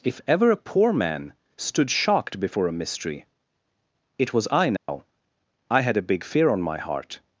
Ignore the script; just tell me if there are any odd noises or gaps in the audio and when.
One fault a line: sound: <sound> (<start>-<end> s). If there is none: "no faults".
sound: dropout (4.8-4.9 s)